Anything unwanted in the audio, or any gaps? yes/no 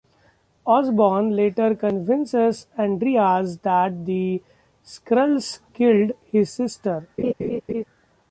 yes